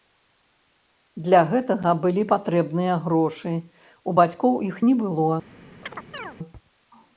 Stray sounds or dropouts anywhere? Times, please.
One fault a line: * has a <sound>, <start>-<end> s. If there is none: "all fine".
* has a chirp, 5.8-6.4 s